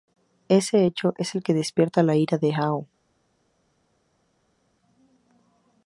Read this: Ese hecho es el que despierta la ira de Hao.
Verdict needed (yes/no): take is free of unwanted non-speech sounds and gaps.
yes